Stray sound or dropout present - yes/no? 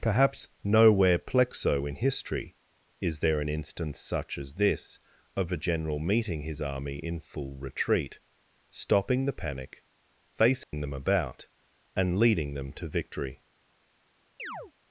yes